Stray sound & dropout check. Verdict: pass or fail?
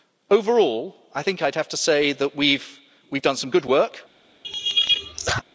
fail